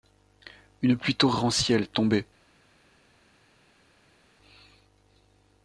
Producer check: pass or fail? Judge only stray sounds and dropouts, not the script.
pass